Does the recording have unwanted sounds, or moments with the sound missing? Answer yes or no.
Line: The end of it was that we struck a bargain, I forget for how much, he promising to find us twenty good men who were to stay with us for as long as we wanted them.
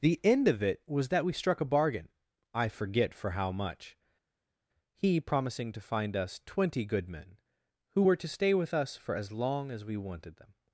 no